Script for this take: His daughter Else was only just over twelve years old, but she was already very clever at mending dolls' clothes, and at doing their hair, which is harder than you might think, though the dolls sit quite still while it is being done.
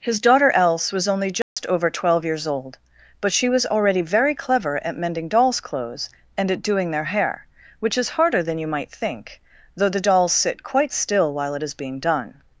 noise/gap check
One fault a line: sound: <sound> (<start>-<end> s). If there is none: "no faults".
sound: dropout (1.4-1.6 s)